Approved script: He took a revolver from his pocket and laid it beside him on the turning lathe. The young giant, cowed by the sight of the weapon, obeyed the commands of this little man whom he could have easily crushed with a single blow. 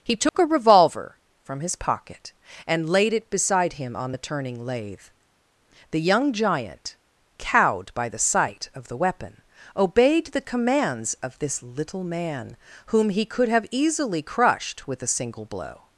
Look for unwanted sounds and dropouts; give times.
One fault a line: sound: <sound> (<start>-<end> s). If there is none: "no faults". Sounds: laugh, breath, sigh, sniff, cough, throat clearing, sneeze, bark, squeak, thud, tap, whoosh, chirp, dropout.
sound: dropout (0.3-0.3 s)